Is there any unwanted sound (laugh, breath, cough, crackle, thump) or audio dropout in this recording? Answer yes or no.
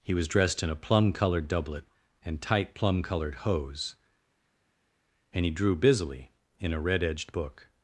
no